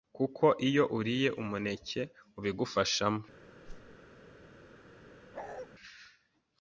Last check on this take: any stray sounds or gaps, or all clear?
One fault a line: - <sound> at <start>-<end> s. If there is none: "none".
- whoosh at 3.6-4.0 s
- bark at 5.3-5.7 s